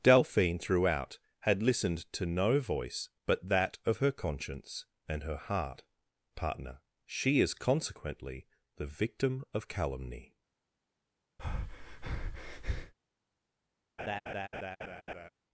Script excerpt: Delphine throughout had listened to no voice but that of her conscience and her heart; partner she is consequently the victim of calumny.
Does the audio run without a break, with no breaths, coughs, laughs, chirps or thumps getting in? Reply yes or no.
no